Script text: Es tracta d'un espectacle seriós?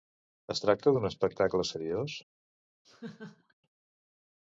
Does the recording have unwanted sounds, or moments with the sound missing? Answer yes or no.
yes